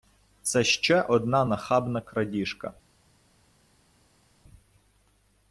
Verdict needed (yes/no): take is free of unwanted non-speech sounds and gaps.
yes